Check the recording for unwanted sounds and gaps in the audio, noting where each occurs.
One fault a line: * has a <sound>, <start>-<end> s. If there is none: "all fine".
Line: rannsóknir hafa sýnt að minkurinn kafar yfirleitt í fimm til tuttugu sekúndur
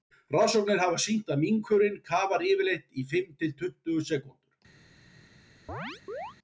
* has a chirp, 5.7-6.4 s